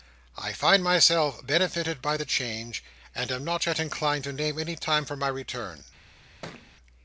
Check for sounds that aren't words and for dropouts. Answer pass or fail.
fail